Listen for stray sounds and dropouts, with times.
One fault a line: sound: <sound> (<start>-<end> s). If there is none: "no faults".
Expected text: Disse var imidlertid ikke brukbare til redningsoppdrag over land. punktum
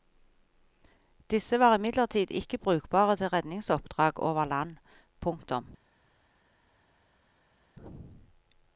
no faults